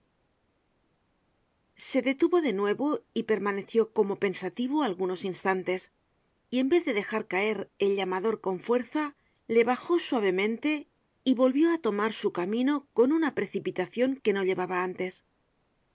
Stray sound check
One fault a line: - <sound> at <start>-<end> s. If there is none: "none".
none